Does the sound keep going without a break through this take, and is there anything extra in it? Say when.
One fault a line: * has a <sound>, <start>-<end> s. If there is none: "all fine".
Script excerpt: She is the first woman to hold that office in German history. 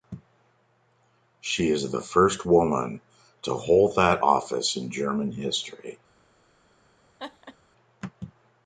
* has a laugh, 7.2-7.6 s